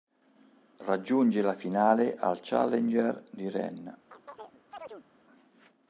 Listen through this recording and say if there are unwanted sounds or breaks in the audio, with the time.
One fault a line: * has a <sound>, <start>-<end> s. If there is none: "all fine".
* has a chirp, 4.1-5.1 s